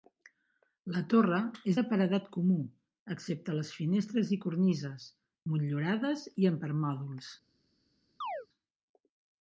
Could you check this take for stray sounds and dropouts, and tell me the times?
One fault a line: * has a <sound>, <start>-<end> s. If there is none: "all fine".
* has a chirp, 8.2-8.5 s